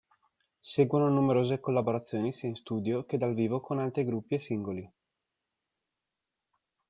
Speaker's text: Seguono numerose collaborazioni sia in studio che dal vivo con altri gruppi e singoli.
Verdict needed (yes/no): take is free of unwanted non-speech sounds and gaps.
yes